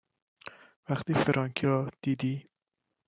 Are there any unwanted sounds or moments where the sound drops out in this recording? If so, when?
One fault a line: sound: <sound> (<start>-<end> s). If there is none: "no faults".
no faults